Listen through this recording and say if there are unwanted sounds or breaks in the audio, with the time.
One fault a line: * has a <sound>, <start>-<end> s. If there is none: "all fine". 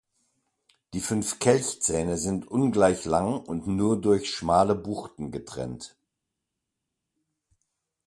all fine